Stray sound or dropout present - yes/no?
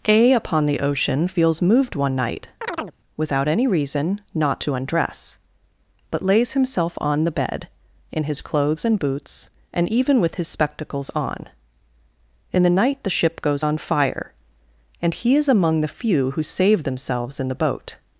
yes